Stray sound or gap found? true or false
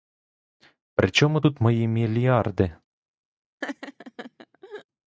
true